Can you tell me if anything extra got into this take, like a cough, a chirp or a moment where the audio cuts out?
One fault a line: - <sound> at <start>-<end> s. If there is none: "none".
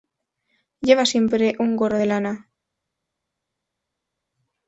none